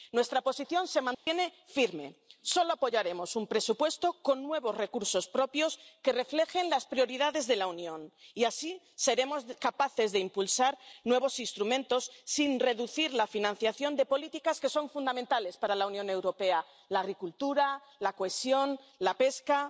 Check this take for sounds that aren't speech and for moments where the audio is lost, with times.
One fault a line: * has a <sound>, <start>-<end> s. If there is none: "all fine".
* has a dropout, 1.1-1.3 s